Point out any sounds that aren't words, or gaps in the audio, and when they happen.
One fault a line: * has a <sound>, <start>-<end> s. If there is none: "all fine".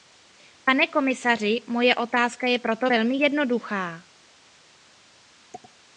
all fine